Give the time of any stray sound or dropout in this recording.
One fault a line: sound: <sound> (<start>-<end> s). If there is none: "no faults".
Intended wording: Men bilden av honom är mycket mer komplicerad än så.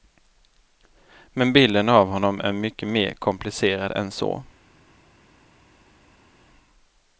no faults